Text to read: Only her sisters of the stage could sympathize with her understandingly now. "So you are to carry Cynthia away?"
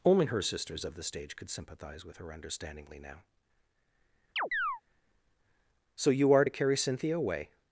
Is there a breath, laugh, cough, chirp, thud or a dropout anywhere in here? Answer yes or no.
yes